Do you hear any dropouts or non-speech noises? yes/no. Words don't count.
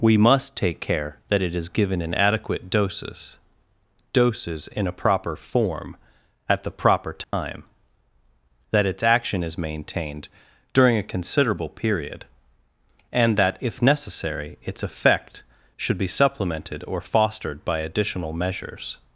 yes